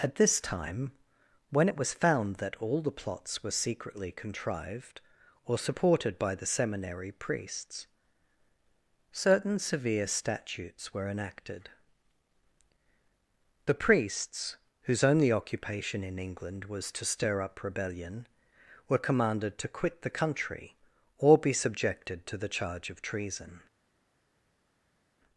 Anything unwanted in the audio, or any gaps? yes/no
no